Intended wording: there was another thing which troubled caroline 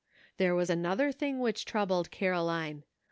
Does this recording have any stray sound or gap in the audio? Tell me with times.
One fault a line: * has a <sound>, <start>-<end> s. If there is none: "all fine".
all fine